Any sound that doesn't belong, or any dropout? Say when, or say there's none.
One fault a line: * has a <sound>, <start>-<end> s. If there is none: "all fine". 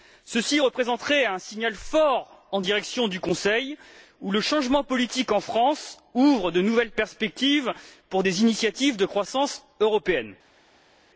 all fine